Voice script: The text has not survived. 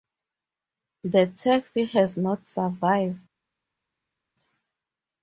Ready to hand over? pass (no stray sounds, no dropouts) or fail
pass